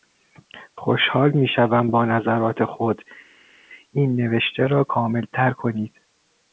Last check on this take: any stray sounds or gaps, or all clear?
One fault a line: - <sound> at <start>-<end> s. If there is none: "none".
none